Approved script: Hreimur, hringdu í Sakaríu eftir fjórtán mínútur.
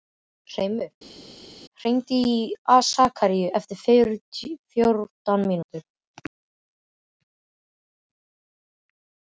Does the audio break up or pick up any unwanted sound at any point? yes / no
no